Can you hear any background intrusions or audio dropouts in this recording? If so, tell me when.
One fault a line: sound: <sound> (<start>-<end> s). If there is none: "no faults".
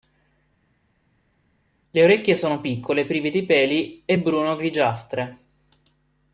no faults